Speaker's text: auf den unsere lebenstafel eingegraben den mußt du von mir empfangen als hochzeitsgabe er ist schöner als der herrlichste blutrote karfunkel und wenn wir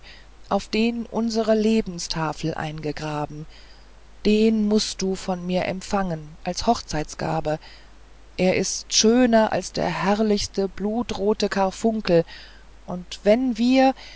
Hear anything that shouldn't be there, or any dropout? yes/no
no